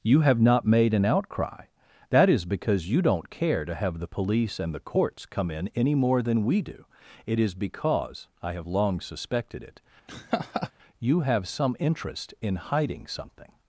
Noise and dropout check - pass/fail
fail